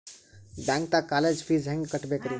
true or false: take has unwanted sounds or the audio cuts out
false